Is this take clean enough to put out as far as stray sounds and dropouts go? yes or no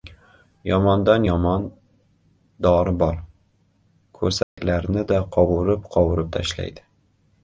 no